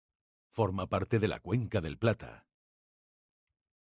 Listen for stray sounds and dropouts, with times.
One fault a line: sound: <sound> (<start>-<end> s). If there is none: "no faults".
no faults